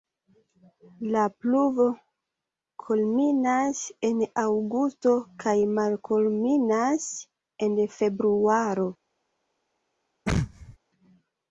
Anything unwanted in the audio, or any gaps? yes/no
yes